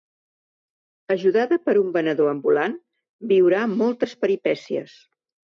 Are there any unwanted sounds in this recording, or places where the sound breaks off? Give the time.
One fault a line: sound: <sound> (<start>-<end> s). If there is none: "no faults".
no faults